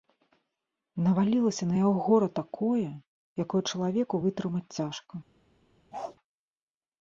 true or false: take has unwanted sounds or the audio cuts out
true